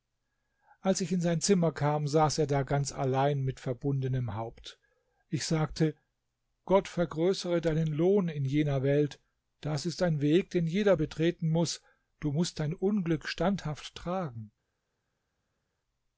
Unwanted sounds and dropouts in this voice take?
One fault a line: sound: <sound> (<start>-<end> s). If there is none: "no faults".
no faults